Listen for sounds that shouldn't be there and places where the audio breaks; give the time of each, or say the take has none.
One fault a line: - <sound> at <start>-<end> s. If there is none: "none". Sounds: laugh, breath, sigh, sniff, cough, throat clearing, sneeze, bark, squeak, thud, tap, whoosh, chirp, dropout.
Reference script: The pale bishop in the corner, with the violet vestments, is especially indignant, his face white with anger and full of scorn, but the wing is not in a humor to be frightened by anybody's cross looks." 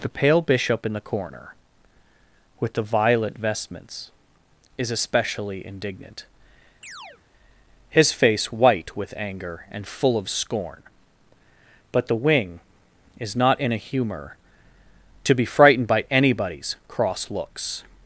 - chirp at 6.8-7.2 s